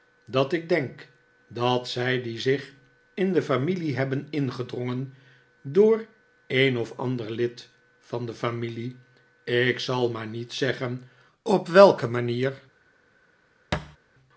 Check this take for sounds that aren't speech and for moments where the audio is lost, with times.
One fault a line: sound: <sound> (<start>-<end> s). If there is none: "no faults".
sound: thud (13.7-14.0 s)